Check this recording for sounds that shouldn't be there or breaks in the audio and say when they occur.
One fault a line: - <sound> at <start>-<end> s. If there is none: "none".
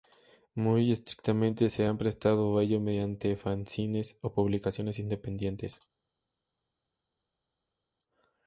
none